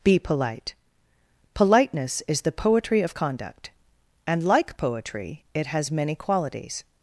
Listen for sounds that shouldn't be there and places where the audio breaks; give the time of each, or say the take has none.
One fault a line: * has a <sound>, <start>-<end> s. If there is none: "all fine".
all fine